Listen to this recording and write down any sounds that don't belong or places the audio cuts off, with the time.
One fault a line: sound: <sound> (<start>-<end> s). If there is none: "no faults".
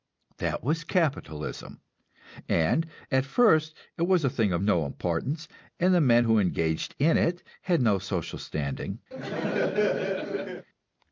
sound: laugh (9.1-10.7 s)